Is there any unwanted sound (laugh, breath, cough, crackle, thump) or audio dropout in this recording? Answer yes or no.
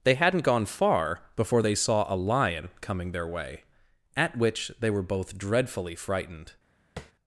yes